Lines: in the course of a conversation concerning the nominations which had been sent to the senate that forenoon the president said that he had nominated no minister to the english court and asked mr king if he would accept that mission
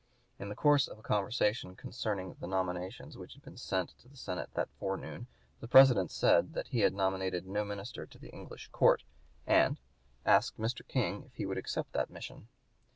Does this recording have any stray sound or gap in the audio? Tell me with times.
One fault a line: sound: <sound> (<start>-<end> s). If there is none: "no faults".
no faults